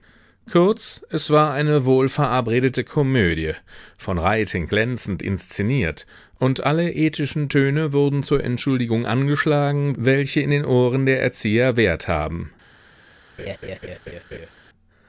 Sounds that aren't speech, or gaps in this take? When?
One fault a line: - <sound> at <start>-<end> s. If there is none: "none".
- laugh at 13.4-14.5 s